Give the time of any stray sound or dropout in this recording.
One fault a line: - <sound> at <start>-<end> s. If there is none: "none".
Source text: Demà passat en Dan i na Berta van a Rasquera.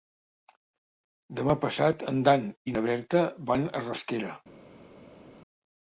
none